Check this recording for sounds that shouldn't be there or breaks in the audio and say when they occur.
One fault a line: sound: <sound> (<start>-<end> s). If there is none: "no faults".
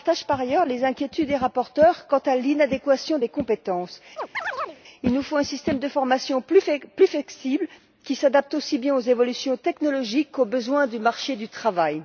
sound: chirp (4.2-4.8 s)